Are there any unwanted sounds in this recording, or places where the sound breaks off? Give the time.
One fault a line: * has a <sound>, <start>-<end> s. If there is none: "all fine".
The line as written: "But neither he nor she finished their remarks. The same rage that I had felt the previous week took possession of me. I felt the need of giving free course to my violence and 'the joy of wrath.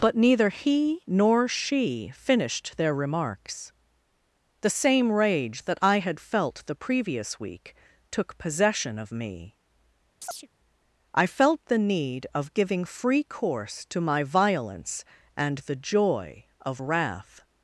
* has a chirp, 10.2-10.5 s